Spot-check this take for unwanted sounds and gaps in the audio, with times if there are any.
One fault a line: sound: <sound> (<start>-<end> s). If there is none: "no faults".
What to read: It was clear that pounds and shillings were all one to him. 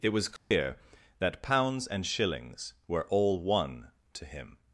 sound: dropout (0.4-0.5 s)